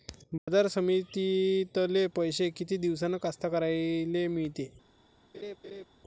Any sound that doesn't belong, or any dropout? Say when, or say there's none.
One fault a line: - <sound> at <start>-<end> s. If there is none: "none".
- dropout at 0.4-0.5 s
- laugh at 5.3-5.9 s